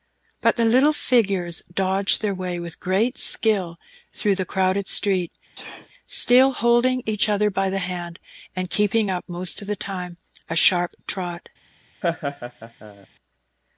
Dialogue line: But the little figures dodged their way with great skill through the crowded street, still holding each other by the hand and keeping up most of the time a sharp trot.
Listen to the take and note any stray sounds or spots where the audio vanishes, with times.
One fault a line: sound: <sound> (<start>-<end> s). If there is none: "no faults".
sound: sneeze (5.6-5.9 s)
sound: laugh (12.0-13.1 s)